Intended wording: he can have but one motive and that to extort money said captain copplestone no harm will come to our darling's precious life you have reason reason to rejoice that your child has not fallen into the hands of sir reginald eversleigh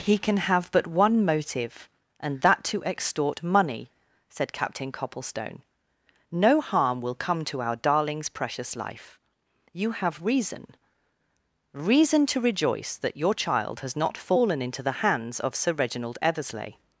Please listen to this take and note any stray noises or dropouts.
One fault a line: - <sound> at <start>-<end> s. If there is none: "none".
none